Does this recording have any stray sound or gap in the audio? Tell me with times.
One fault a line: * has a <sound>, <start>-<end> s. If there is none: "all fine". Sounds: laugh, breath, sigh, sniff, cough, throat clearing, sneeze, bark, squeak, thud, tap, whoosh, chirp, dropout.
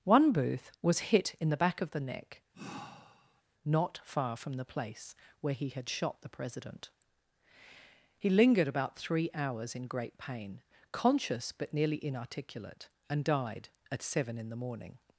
* has a sigh, 2.5-3.4 s